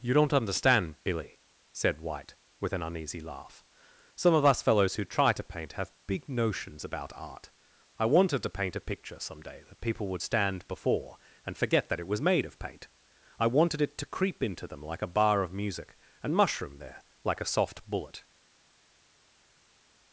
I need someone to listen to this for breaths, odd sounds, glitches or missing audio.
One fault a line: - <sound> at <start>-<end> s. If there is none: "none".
none